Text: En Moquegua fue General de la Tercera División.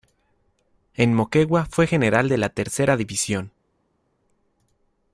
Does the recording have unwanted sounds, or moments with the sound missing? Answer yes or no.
no